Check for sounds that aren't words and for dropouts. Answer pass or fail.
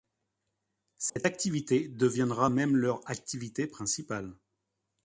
fail